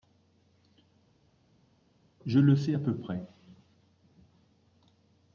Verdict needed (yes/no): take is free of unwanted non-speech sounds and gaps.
yes